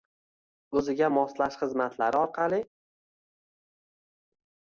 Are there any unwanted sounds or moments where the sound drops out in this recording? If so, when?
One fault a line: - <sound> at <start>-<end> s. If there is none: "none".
none